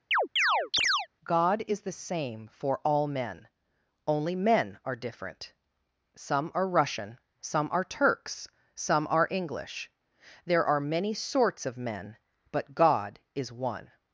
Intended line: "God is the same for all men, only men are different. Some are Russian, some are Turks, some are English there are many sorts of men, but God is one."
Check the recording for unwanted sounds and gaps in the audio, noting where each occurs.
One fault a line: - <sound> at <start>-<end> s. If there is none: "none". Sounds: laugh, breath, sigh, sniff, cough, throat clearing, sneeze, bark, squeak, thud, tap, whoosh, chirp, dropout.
- chirp at 0.1-1.1 s